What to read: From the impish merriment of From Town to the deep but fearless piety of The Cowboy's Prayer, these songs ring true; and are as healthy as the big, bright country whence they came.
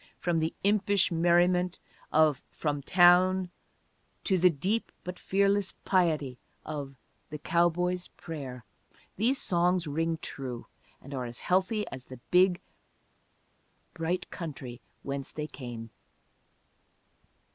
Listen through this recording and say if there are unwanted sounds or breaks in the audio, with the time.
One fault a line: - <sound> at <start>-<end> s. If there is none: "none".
none